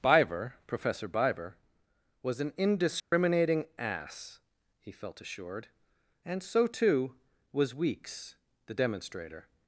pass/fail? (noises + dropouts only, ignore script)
fail